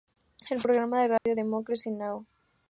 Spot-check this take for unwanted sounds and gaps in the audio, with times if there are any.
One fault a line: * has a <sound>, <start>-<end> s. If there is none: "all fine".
* has a dropout, 1.2-1.3 s